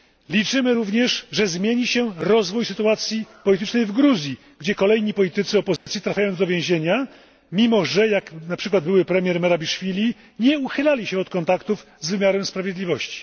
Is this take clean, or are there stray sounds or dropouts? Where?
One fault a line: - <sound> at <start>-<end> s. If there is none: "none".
- dropout at 5.8-5.9 s